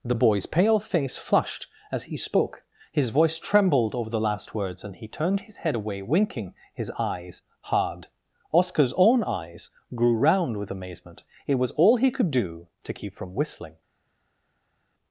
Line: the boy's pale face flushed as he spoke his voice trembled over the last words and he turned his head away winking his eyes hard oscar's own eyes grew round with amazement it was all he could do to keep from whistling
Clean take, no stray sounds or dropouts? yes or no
yes